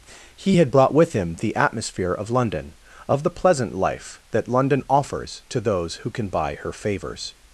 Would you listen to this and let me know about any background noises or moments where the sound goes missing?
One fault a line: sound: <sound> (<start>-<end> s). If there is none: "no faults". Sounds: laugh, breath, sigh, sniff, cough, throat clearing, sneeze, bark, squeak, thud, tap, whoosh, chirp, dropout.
no faults